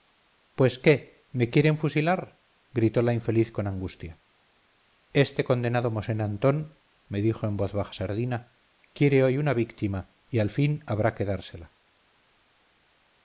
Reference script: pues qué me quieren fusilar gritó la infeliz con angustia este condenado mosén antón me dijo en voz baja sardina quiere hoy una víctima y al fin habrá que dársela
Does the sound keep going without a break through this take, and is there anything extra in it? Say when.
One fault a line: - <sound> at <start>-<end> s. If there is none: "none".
none